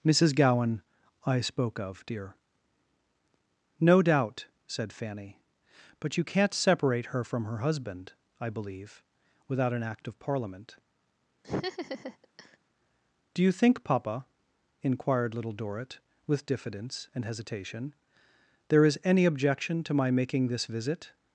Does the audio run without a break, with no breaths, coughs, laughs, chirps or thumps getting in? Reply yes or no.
no